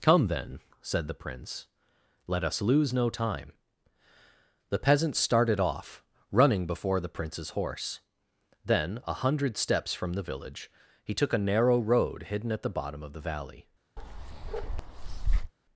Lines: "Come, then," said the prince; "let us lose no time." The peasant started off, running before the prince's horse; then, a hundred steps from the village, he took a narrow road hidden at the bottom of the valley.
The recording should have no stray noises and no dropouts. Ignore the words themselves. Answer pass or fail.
fail